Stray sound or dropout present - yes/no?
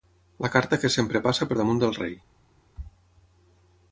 no